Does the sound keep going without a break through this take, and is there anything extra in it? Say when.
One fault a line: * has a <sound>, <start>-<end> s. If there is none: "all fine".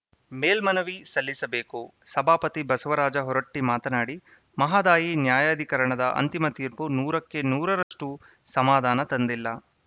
* has a dropout, 7.8-7.9 s